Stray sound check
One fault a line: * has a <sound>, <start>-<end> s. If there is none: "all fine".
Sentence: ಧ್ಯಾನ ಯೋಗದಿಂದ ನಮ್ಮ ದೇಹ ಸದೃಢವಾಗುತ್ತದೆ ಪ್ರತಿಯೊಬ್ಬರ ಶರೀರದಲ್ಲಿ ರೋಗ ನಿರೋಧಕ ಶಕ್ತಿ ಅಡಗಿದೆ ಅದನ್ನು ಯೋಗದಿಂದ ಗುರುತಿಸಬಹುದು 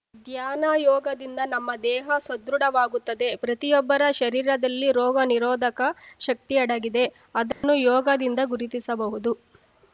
* has a dropout, 7.5-7.6 s